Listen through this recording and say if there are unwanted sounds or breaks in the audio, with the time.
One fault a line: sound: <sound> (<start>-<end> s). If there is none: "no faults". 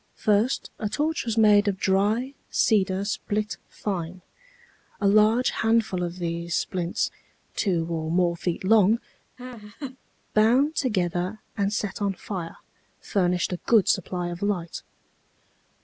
sound: laugh (9.4-10.0 s)